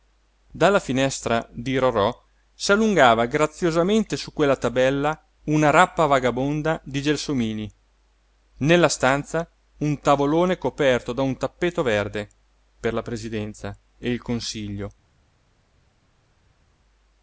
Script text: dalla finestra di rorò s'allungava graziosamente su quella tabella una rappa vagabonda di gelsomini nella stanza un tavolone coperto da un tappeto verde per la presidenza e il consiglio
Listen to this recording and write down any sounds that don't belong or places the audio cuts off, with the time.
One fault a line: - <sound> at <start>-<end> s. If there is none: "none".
none